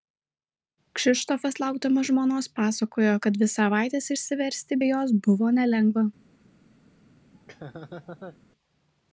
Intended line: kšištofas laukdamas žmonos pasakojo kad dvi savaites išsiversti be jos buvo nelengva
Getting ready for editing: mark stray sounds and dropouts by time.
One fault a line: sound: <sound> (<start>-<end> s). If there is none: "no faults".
sound: laugh (7.3-8.4 s)